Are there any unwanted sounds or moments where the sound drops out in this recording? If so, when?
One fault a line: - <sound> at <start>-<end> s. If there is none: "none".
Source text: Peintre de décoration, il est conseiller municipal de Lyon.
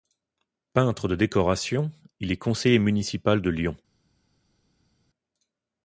none